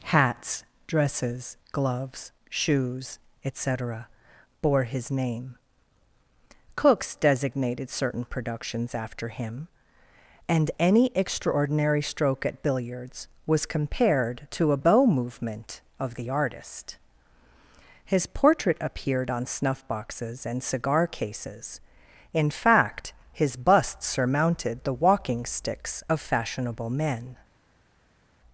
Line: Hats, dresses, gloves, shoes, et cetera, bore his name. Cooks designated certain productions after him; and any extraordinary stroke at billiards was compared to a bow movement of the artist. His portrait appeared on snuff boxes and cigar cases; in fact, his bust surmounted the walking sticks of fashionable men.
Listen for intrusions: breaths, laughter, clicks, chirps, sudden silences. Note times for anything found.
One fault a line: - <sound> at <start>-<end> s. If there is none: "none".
none